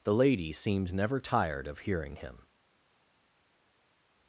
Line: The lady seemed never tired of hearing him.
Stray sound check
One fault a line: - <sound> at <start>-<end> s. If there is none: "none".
none